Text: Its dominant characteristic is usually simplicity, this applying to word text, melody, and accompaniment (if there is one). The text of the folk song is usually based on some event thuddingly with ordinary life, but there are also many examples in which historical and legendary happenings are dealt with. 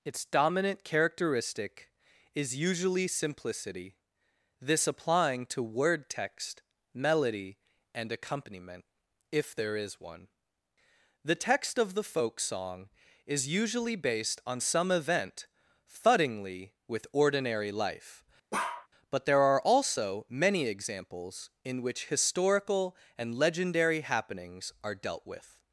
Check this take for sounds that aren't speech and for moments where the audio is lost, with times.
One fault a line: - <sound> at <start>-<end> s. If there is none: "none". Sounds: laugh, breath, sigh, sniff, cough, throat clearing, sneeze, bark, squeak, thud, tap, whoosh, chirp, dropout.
- bark at 18.5-18.9 s